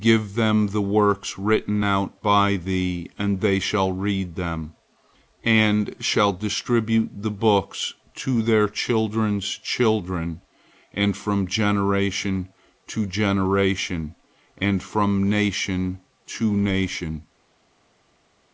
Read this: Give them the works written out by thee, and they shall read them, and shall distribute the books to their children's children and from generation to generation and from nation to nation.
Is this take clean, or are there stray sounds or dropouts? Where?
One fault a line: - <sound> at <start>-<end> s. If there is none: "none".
none